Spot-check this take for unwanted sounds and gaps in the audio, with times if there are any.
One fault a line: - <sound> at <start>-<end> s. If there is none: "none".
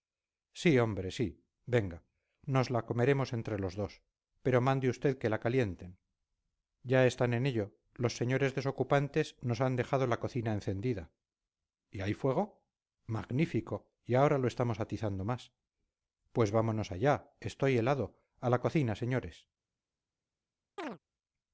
- chirp at 20.8-21.0 s